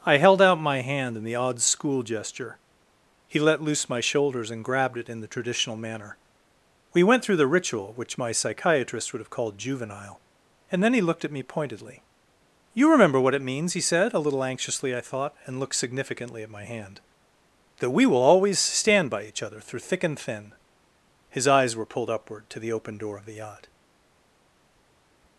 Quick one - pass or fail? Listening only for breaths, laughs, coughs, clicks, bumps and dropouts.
pass